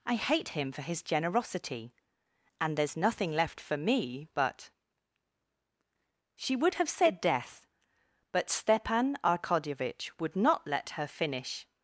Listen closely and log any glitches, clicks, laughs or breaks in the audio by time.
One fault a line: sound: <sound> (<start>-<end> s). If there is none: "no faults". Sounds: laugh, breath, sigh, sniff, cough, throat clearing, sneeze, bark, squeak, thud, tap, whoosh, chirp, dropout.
no faults